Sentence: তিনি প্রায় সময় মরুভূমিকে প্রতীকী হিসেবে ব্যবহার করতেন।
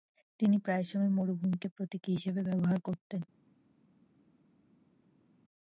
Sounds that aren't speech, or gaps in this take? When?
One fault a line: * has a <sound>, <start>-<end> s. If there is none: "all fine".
all fine